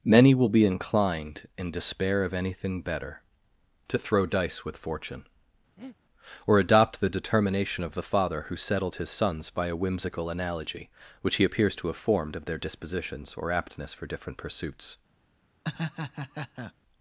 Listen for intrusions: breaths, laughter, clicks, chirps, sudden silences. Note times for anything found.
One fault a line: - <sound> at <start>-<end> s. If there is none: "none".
- breath at 5.8-6.0 s
- laugh at 15.6-16.7 s